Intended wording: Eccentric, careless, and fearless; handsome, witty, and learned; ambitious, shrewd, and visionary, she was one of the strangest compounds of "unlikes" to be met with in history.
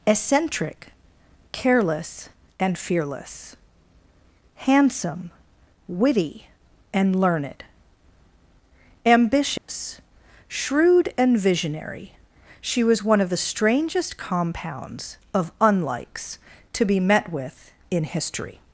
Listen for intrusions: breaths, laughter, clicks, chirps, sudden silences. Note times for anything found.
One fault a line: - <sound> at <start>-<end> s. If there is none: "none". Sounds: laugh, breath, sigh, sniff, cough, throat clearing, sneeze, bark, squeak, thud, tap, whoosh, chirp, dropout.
- dropout at 9.6-9.7 s